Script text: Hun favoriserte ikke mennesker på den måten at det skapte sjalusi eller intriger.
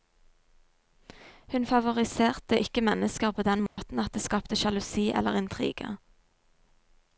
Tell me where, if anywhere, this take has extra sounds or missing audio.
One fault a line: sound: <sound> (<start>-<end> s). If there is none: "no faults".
sound: dropout (3.7-3.8 s)